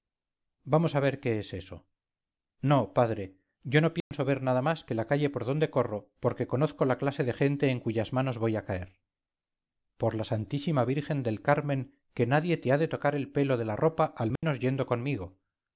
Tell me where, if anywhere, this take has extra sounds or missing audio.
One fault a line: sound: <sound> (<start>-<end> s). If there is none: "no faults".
sound: dropout (4.0-4.1 s)
sound: dropout (14.4-14.4 s)